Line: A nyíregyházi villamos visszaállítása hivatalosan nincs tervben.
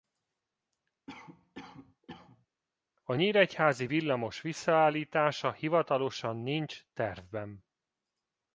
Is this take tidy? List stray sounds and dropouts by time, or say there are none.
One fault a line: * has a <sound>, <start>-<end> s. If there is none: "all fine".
* has a cough, 1.1-2.5 s